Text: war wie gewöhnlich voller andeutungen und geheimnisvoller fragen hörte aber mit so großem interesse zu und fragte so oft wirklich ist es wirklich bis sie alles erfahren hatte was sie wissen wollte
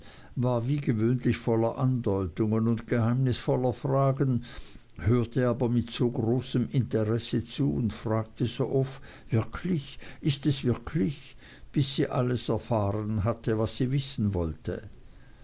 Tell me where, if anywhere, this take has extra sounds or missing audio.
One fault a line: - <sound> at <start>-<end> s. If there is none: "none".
none